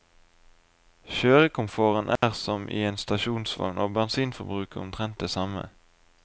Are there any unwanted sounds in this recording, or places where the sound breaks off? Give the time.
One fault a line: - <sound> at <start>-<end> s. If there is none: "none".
- dropout at 2.2-2.2 s